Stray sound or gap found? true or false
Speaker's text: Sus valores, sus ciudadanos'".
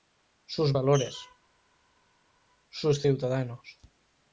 false